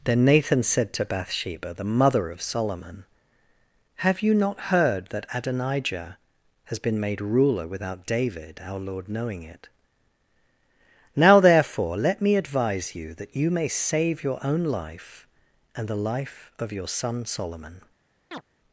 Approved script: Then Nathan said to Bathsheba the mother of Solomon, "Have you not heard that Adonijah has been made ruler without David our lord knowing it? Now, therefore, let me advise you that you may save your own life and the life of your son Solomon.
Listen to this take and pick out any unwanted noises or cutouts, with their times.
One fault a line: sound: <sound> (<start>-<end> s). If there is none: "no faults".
sound: chirp (18.3-18.4 s)